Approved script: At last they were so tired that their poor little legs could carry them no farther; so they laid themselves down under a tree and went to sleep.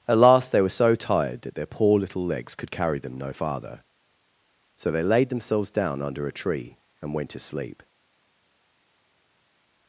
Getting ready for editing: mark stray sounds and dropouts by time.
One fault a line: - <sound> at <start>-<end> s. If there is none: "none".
none